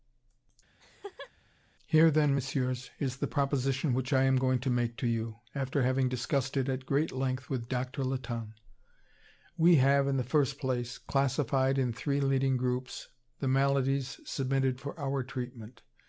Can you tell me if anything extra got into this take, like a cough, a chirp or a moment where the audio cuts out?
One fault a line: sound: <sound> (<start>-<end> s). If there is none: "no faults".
sound: laugh (0.8-1.3 s)